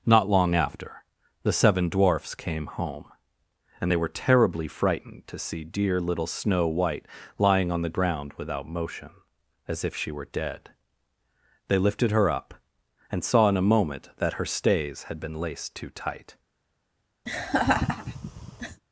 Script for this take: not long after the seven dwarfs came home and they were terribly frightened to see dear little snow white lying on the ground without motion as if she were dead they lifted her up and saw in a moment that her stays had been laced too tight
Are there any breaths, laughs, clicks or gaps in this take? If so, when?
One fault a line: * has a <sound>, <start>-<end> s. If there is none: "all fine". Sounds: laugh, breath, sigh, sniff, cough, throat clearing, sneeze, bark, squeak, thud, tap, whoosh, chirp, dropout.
* has a laugh, 17.3-18.8 s